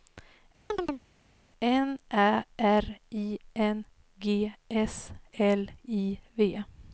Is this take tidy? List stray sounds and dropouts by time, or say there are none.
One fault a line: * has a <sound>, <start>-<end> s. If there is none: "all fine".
* has a chirp, 0.7-1.0 s